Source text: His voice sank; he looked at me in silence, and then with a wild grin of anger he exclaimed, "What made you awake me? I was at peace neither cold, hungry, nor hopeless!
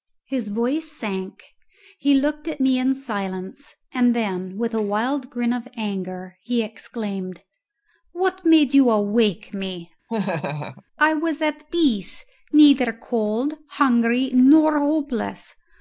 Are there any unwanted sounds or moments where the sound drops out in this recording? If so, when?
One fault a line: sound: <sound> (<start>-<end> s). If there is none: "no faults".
sound: laugh (10.1-10.8 s)